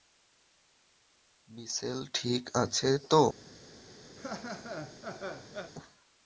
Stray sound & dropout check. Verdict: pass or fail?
fail